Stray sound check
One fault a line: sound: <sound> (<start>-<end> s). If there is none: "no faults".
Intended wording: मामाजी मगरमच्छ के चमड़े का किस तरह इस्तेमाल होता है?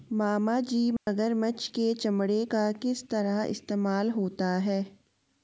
sound: dropout (1.0-1.1 s)